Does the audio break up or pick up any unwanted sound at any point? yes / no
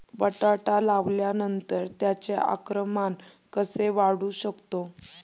no